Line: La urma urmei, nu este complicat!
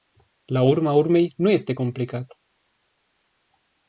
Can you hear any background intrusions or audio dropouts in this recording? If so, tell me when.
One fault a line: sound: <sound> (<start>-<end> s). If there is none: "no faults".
no faults